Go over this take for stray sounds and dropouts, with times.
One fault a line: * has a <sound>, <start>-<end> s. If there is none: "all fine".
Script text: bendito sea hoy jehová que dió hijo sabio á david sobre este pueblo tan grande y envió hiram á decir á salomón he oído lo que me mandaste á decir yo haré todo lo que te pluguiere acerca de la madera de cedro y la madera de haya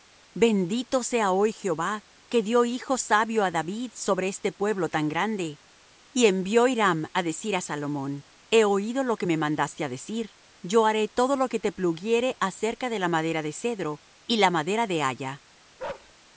* has a bark, 15.8-16.1 s